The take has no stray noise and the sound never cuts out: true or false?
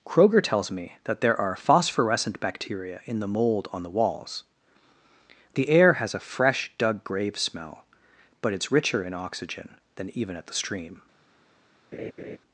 false